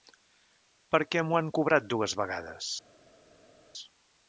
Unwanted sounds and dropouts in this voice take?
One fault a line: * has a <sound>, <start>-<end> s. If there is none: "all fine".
all fine